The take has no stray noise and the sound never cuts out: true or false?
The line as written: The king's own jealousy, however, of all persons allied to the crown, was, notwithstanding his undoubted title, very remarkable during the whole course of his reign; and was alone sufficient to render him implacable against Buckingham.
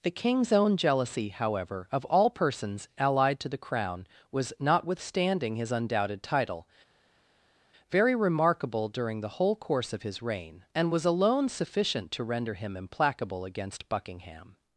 true